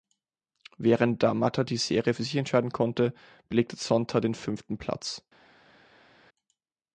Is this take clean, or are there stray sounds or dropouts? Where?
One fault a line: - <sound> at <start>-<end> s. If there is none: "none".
none